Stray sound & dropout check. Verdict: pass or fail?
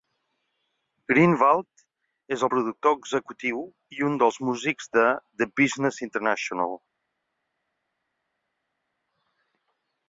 pass